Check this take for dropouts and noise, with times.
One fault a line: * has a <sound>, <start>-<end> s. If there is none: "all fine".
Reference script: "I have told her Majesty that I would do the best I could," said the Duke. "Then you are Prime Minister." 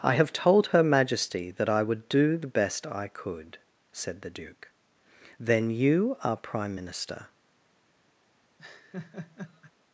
* has a laugh, 8.6-9.7 s